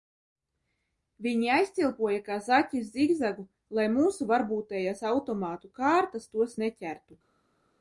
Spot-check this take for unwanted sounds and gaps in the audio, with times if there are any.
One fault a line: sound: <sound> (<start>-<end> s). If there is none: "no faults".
no faults